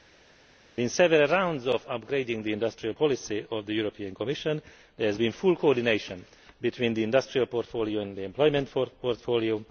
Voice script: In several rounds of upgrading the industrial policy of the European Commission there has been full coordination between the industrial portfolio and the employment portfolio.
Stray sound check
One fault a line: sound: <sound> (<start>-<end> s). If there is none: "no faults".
no faults